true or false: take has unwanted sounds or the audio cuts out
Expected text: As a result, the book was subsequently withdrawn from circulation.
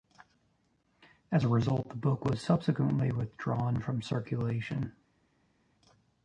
false